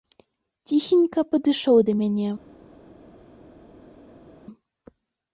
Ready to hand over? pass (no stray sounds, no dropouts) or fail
pass